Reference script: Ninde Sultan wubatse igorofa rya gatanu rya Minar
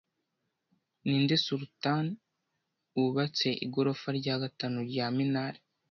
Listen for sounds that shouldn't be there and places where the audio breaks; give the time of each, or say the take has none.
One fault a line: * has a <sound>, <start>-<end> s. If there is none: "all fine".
all fine